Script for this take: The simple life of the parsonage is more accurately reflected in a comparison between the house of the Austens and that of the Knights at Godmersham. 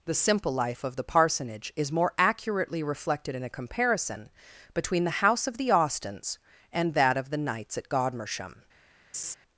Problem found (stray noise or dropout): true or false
true